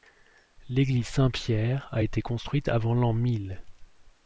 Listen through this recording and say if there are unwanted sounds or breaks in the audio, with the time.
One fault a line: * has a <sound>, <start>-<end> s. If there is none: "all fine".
all fine